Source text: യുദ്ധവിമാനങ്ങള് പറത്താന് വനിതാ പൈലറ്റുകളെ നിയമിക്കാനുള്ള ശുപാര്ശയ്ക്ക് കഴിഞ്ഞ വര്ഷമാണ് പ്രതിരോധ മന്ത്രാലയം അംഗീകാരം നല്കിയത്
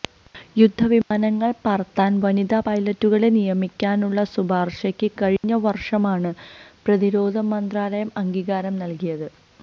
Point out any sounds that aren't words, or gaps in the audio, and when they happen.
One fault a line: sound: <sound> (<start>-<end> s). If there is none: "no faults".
sound: dropout (5.4-5.4 s)